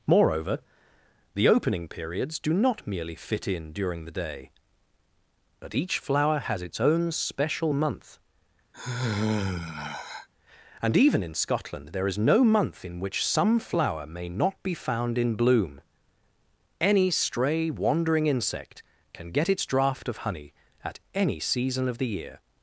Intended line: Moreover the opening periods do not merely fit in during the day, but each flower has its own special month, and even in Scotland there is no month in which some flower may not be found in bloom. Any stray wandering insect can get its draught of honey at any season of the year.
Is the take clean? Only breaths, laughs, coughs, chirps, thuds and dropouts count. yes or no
no